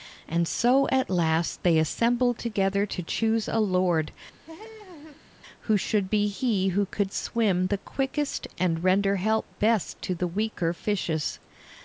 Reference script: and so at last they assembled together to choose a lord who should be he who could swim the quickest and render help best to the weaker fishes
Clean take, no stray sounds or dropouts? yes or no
no